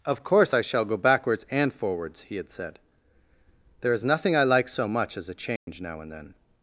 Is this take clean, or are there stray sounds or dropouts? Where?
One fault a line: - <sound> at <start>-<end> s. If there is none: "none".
- dropout at 5.6-5.7 s